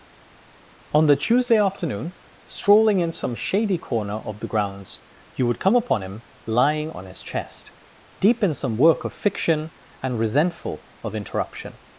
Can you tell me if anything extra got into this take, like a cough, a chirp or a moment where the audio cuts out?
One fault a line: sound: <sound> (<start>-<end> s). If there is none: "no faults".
no faults